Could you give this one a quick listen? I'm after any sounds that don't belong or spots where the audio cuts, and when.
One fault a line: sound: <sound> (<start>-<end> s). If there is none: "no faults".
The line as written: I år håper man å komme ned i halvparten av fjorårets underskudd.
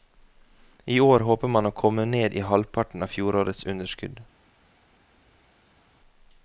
no faults